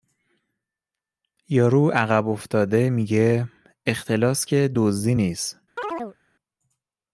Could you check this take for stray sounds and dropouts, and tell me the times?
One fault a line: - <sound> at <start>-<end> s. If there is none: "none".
- chirp at 5.8-6.2 s